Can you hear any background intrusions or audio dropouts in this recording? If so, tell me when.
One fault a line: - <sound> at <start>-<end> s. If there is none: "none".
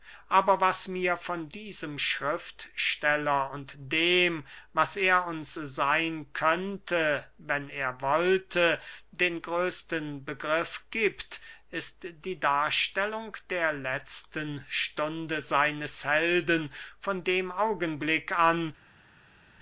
none